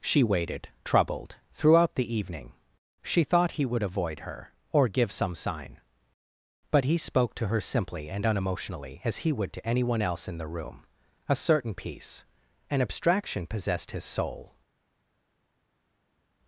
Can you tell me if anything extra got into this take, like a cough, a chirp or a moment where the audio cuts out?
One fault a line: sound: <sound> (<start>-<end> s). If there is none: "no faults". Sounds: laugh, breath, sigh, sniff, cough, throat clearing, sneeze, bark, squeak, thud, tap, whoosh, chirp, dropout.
no faults